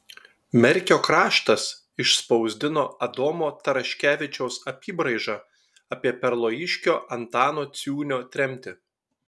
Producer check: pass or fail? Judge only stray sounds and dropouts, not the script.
pass